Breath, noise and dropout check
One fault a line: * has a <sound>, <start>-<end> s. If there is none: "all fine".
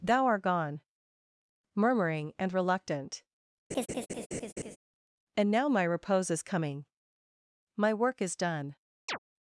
* has a laugh, 3.7-4.8 s
* has a chirp, 9.1-9.2 s